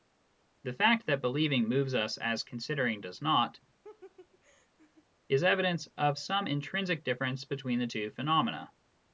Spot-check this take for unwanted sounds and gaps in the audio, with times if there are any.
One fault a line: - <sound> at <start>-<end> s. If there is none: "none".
- laugh at 3.8-5.1 s